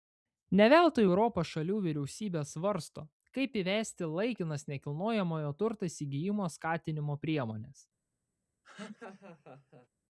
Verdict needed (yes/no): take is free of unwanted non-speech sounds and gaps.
no